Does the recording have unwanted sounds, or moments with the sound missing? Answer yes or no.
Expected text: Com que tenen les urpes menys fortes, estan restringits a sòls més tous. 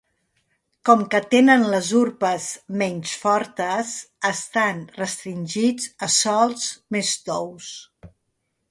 no